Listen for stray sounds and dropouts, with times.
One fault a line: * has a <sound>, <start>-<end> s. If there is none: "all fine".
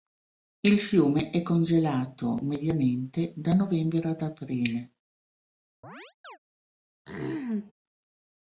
* has a chirp, 5.8-6.4 s
* has a throat clearing, 7.1-7.7 s